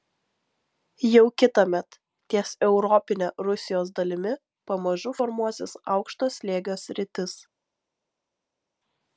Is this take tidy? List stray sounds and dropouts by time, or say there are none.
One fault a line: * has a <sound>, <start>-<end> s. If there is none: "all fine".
all fine